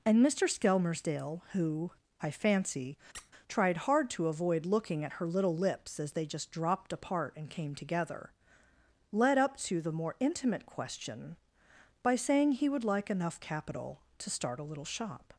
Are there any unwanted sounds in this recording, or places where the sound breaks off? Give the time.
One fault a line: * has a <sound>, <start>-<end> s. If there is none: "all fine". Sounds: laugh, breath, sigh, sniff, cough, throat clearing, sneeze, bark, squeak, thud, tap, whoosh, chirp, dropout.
* has a squeak, 3.1-3.3 s